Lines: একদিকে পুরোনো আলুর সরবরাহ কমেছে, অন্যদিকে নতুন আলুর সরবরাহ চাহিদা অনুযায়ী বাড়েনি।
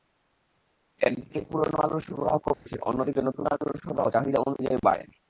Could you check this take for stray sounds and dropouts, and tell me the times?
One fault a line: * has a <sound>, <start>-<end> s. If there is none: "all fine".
* has a dropout, 2.5-2.7 s